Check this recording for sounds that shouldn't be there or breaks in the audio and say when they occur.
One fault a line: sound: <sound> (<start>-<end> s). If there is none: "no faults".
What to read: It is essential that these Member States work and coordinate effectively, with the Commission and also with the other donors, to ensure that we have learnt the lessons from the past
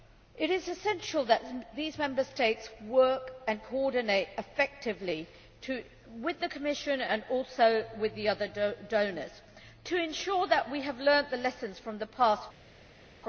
no faults